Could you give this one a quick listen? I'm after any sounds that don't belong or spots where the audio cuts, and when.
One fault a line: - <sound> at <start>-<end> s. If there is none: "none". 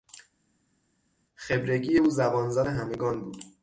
none